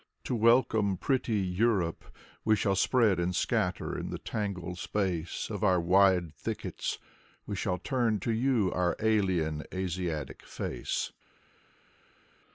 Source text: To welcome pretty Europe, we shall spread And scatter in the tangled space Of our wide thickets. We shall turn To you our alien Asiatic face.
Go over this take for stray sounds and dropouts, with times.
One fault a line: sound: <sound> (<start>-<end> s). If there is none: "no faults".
no faults